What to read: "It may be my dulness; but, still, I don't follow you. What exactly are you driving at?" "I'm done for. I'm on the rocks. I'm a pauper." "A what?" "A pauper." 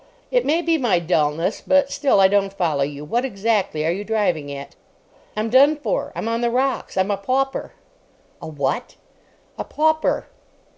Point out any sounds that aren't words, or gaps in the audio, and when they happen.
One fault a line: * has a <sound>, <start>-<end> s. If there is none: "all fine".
all fine